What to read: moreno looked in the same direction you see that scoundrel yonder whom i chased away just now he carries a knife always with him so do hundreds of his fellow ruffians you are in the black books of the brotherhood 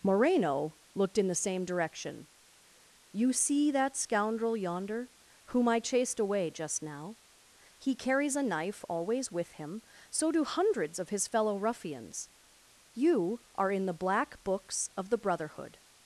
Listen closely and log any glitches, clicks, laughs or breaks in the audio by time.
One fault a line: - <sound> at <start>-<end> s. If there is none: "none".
none